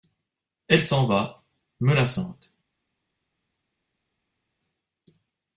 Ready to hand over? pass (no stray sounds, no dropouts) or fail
pass